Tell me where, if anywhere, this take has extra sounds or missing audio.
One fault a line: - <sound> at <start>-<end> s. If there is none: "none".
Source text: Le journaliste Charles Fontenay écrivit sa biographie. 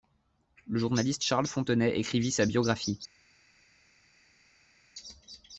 none